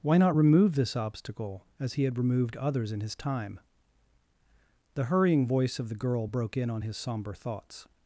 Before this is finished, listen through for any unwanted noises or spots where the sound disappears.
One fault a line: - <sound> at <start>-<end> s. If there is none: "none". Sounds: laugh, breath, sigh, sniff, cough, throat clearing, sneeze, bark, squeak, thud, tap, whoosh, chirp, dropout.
none